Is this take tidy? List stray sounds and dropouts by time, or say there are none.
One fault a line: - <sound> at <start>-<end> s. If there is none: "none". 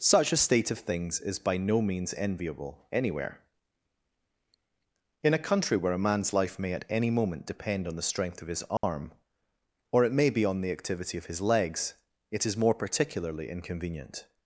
- dropout at 8.8-8.8 s